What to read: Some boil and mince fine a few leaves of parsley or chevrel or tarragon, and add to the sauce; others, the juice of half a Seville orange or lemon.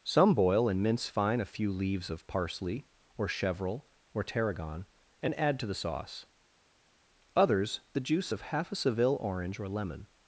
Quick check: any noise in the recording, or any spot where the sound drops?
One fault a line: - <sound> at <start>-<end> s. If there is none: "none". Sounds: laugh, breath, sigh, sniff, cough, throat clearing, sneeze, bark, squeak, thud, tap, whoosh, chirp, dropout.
none